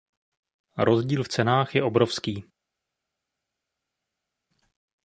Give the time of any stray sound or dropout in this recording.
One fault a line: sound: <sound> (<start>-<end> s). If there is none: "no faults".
no faults